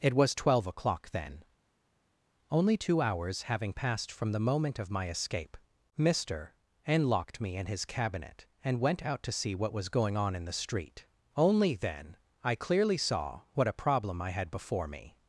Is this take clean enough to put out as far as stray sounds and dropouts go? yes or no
yes